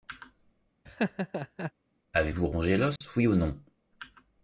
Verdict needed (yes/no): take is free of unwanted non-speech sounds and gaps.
no